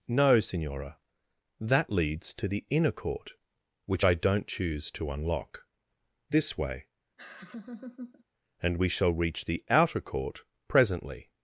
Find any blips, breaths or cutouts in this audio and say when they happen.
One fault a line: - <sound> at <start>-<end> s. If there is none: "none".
- laugh at 7.2-8.2 s